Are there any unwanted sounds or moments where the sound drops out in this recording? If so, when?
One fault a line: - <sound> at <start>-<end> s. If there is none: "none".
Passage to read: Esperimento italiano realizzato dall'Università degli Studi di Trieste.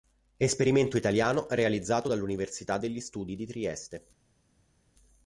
none